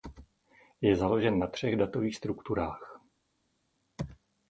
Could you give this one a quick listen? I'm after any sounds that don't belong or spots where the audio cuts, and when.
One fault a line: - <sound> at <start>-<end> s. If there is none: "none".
none